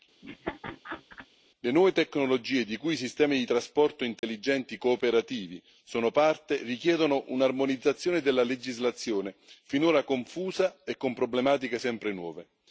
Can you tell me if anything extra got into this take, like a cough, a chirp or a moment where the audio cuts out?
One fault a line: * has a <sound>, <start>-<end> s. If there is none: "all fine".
* has a laugh, 0.2-1.3 s
* has a dropout, 4.2-4.2 s